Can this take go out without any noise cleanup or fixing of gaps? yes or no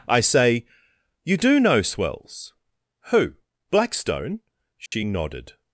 no